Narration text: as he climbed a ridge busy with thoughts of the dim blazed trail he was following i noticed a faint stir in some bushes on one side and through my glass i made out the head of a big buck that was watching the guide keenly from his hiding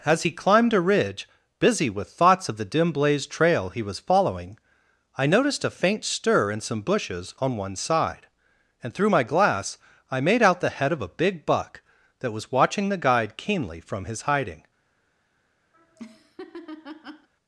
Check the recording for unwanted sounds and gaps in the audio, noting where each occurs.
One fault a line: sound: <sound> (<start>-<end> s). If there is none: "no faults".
sound: laugh (15.7-17.3 s)